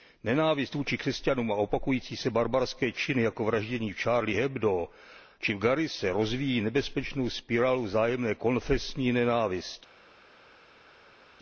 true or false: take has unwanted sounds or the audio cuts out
false